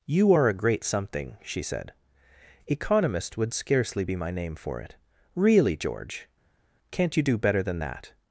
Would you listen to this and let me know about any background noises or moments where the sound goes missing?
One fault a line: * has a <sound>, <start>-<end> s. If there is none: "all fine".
all fine